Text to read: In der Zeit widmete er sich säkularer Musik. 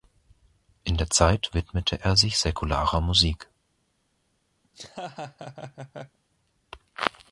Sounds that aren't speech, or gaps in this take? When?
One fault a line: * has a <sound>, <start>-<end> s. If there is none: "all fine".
* has a laugh, 4.6-6.2 s